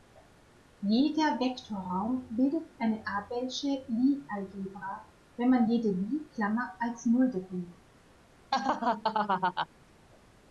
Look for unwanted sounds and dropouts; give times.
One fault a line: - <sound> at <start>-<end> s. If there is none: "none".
- laugh at 8.5-9.7 s